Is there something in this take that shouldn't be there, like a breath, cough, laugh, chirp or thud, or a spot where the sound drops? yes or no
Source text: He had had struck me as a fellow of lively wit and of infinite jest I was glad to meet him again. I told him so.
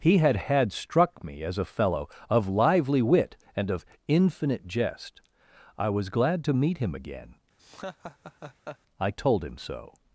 yes